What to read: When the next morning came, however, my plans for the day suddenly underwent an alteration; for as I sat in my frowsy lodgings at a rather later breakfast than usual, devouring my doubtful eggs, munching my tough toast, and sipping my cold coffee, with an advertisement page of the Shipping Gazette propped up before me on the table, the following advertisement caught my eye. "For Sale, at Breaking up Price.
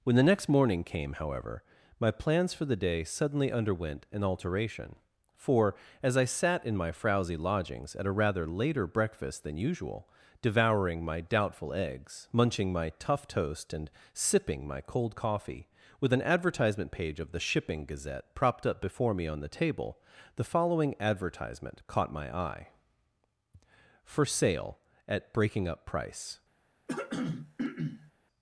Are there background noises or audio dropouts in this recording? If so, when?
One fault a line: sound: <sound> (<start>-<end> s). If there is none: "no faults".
sound: throat clearing (26.9-28.1 s)